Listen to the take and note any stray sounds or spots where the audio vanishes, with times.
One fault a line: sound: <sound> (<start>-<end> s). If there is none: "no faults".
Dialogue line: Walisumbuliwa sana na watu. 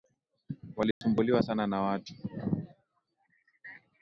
sound: dropout (0.9-1.0 s)